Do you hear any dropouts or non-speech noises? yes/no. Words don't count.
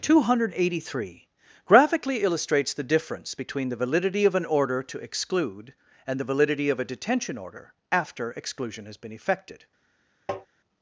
yes